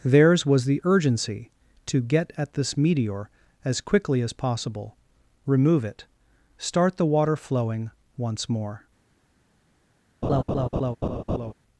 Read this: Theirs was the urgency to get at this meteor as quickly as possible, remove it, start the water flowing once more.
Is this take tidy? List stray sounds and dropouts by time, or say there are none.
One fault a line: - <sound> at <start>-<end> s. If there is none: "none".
- laugh at 10.2-11.5 s